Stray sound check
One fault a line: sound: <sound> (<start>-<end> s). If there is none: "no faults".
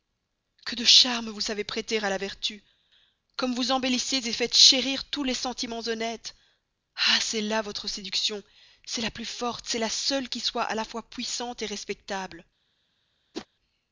sound: whoosh (13.3-13.5 s)